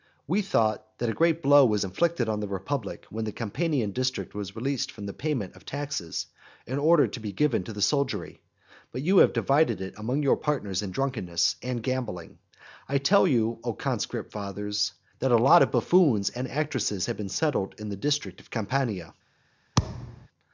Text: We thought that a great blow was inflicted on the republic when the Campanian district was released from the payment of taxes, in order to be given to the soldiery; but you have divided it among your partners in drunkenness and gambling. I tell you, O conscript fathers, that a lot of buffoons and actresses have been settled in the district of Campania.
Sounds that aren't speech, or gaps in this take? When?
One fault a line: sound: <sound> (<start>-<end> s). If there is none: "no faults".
sound: thud (19.8-20.3 s)